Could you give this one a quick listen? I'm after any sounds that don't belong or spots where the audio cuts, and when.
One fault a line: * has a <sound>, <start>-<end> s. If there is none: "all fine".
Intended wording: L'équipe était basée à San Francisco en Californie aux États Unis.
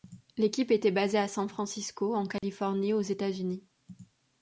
* has a dropout, 2.4-2.4 s